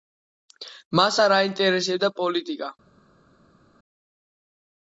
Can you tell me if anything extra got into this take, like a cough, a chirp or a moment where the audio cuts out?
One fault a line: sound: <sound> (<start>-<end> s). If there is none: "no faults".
no faults